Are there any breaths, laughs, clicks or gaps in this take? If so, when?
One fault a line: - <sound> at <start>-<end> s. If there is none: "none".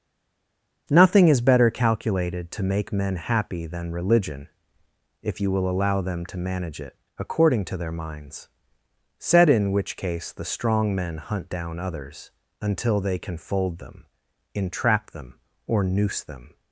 none